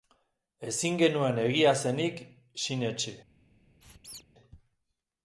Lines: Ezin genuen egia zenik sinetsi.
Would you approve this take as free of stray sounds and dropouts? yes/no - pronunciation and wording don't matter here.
no